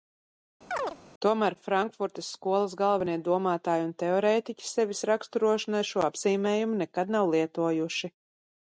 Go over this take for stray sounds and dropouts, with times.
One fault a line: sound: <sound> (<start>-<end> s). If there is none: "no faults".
sound: chirp (0.7-1.0 s)